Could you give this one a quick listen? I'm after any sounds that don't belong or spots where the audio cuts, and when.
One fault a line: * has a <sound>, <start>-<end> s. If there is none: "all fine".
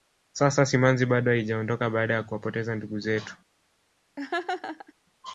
* has a laugh, 4.2-4.9 s